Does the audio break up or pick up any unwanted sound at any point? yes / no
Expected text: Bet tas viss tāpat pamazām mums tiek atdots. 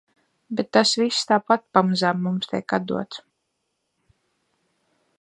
no